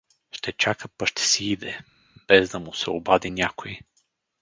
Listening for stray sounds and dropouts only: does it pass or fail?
pass